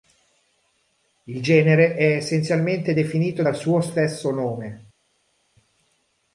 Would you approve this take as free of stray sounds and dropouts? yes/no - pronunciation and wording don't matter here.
yes